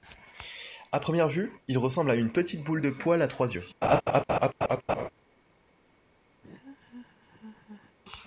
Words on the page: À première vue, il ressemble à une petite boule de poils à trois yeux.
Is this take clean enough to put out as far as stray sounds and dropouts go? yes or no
no